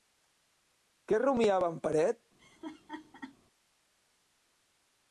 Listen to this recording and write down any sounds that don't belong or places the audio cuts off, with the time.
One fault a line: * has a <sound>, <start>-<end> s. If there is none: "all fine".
* has a laugh, 2.4-3.4 s